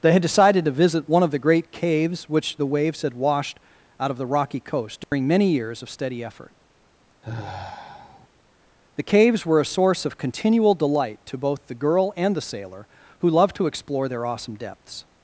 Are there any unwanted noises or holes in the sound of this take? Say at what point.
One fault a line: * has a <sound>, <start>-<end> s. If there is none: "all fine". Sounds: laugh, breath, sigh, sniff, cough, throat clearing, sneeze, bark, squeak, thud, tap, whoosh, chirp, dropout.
* has a dropout, 5.0-5.1 s
* has a sigh, 7.2-8.3 s